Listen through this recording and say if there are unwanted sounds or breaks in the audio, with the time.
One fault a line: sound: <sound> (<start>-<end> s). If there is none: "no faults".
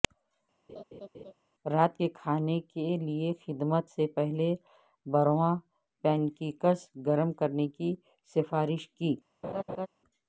sound: laugh (0.7-1.3 s)
sound: laugh (9.4-9.9 s)